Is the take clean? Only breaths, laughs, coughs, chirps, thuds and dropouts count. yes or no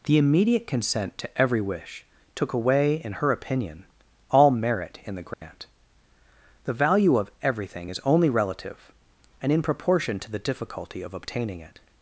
no